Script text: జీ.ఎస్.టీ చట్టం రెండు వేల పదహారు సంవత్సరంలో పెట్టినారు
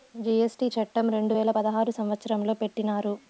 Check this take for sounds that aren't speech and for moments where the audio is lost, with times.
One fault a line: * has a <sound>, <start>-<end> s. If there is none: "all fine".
all fine